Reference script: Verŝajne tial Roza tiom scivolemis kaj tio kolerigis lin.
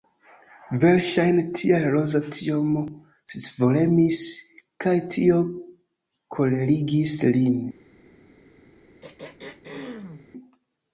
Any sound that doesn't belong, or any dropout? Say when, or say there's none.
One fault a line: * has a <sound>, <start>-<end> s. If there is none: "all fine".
* has a throat clearing, 9.0-10.3 s